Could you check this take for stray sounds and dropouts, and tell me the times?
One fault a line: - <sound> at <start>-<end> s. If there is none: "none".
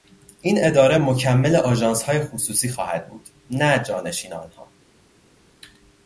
none